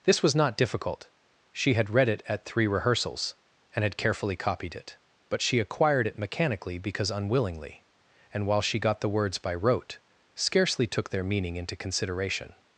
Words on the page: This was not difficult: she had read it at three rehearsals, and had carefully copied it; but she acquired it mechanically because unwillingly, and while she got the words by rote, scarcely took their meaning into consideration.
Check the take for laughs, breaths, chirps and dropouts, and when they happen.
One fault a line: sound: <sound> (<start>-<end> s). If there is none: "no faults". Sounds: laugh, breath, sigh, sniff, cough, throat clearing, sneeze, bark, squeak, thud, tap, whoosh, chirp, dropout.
no faults